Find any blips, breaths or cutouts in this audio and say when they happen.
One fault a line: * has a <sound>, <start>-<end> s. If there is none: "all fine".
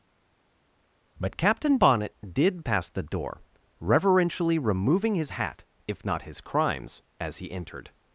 all fine